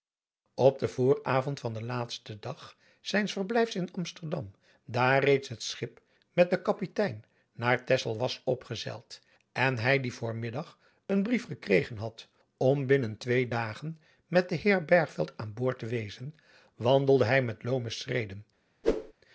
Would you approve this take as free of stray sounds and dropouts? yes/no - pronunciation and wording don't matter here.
no